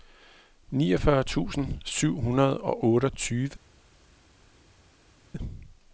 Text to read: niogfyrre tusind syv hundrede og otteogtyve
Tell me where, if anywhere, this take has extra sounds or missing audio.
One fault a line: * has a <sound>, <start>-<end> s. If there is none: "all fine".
all fine